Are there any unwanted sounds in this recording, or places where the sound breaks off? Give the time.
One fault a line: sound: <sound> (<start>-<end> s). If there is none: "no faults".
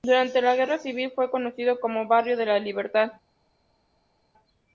no faults